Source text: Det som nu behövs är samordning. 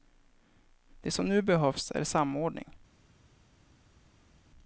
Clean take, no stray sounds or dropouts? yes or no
yes